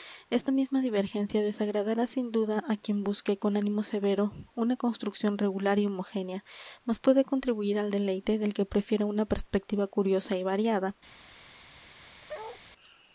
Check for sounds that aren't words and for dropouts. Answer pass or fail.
fail